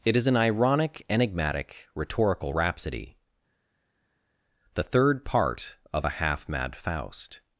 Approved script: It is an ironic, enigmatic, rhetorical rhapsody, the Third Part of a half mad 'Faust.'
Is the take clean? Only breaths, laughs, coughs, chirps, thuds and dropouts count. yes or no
yes